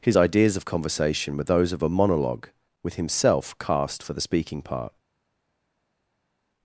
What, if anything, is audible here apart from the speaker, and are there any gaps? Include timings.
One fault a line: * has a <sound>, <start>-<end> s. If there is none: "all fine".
all fine